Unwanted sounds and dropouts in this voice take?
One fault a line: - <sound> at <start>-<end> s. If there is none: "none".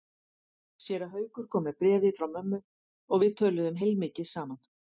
none